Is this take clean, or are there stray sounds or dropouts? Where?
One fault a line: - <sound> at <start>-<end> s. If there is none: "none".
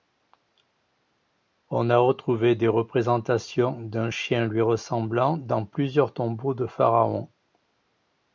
none